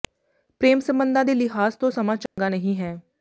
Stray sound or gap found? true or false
true